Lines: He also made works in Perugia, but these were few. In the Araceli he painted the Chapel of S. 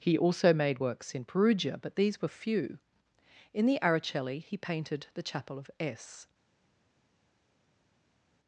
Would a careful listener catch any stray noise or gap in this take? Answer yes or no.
no